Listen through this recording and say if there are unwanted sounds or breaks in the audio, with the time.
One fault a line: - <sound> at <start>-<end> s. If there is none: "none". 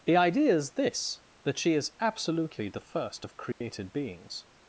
- dropout at 3.5-3.6 s